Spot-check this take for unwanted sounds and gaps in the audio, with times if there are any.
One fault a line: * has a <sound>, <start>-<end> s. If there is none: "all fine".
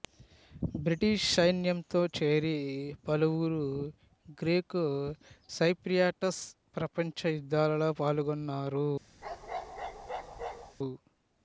* has a bark, 9.2-10.8 s